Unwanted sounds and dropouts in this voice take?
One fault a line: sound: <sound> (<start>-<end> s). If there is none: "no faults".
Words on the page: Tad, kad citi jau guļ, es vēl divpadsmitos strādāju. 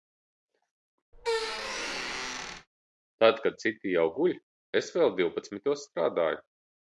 sound: squeak (1.1-2.7 s)